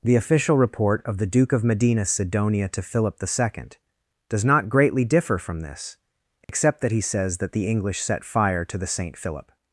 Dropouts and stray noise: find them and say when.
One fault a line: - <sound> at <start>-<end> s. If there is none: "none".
- dropout at 6.4-6.5 s